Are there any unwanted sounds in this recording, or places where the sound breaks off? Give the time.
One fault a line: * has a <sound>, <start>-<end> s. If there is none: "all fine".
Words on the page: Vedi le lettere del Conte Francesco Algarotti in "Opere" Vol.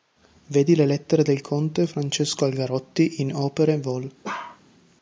* has a bark, 4.2-4.6 s